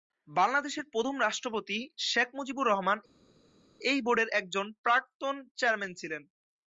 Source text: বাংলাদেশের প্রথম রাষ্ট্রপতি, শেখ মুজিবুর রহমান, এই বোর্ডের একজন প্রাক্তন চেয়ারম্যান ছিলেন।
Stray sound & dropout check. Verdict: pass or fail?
pass